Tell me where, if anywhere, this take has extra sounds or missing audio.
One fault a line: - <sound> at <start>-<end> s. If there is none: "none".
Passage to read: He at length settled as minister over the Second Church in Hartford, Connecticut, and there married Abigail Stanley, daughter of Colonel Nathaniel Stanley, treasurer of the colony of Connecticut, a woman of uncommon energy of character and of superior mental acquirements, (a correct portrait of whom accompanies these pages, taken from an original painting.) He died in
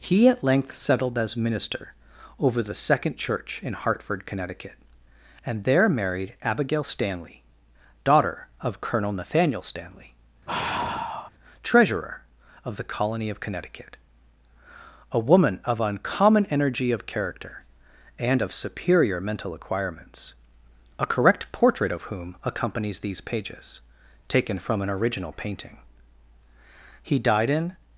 - sigh at 10.5-11.3 s